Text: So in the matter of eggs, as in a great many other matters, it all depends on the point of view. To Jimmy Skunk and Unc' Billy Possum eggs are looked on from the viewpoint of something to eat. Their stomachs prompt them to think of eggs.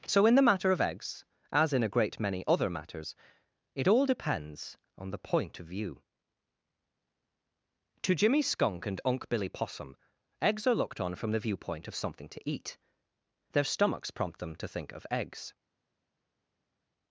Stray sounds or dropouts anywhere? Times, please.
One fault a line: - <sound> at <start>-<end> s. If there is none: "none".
none